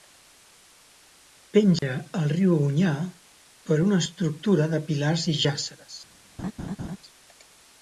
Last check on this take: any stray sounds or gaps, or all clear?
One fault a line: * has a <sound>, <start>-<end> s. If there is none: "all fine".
* has a dropout, 1.8-1.8 s
* has a laugh, 6.4-7.0 s